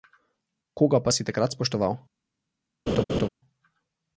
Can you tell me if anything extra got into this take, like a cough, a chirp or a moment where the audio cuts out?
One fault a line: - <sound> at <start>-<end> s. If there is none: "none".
- laugh at 2.9-3.3 s